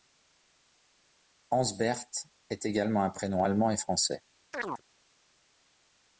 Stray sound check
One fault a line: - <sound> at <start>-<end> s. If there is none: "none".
- chirp at 4.5-4.8 s